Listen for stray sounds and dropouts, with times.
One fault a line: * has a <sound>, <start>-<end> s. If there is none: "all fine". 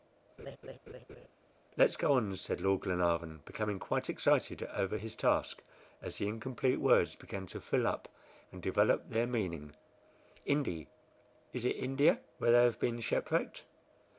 * has a laugh, 0.4-1.3 s